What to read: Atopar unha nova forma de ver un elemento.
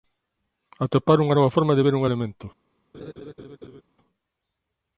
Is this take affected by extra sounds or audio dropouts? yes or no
yes